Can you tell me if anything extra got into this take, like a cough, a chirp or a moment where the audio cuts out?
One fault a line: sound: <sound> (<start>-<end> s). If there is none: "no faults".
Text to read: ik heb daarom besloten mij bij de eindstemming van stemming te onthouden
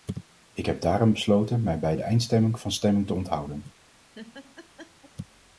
sound: laugh (4.1-5.1 s)